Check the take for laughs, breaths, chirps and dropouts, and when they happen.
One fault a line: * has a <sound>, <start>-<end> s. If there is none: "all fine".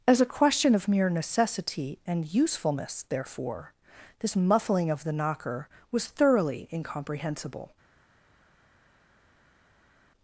all fine